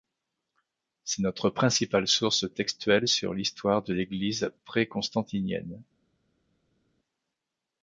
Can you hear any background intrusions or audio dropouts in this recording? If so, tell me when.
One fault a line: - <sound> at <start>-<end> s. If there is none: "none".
none